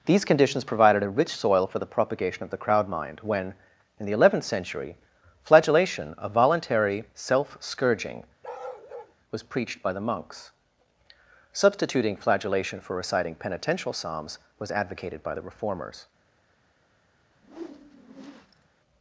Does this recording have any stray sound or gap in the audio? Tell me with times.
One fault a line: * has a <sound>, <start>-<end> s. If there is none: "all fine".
* has a bark, 8.4-9.2 s
* has a whoosh, 17.3-18.7 s